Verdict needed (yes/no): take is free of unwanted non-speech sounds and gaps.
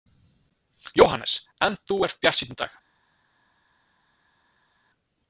yes